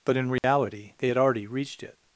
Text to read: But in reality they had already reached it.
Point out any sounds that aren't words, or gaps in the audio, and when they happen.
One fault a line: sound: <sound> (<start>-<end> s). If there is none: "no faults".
sound: dropout (0.4-0.4 s)